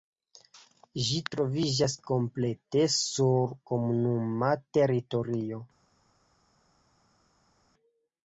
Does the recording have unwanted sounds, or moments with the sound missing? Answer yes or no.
no